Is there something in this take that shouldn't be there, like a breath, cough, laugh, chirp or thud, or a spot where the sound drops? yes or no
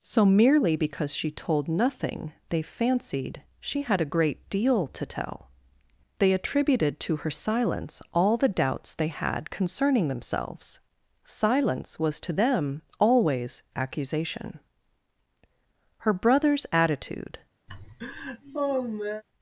yes